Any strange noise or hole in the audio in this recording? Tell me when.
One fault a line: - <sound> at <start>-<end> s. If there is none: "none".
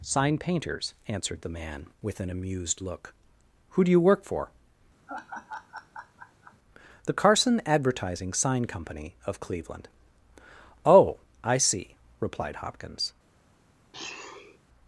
- laugh at 5.1-6.6 s
- sniff at 13.9-14.6 s